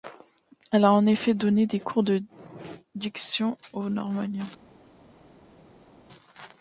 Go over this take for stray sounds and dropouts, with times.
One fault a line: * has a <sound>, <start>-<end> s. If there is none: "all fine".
all fine